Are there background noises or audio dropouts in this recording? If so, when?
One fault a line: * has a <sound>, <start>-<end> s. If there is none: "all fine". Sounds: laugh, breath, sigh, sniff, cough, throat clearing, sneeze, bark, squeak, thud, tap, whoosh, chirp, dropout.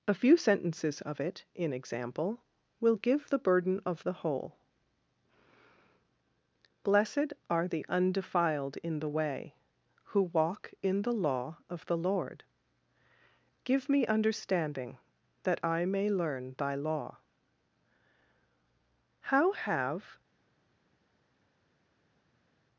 all fine